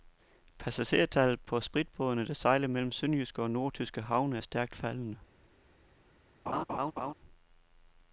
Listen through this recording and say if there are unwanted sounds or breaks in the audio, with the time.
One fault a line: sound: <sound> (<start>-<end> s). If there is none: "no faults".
sound: laugh (6.5-7.1 s)